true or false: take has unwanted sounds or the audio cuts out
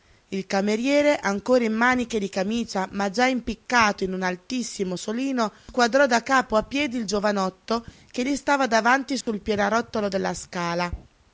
true